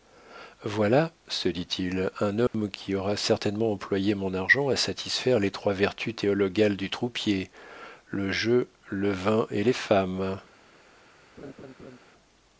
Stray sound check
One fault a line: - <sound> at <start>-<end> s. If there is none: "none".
- dropout at 2.5-2.5 s
- laugh at 11.4-12.0 s